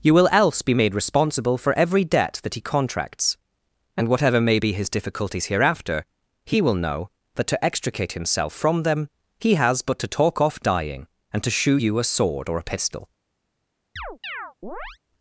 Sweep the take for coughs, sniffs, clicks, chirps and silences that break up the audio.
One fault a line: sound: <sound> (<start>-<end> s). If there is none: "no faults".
sound: chirp (14.0-15.0 s)